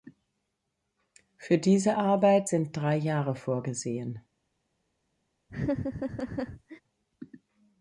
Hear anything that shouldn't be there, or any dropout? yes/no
yes